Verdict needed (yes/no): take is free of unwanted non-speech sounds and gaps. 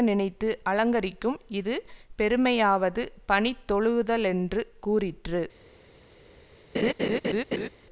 no